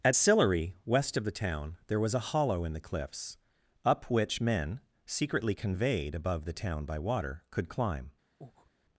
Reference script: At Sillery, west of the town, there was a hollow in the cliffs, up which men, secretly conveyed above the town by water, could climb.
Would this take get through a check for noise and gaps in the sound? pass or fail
fail